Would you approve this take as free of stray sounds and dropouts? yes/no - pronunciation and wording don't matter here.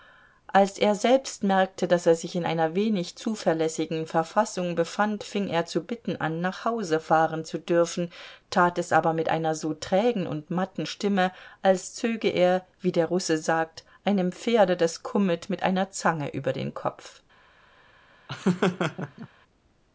no